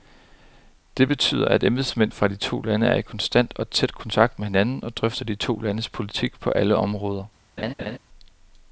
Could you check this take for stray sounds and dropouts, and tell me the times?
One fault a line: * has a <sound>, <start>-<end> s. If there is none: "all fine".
* has a laugh, 7.6-8.0 s